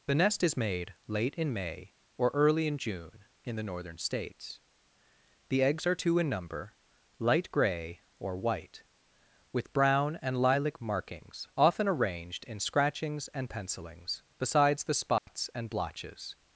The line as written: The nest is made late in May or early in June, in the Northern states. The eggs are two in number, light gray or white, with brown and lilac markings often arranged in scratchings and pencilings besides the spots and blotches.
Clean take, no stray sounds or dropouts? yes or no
no